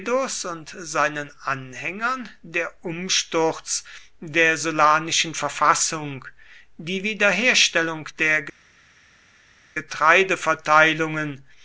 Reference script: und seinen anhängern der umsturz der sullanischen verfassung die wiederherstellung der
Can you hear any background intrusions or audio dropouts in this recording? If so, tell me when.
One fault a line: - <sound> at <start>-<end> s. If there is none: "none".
none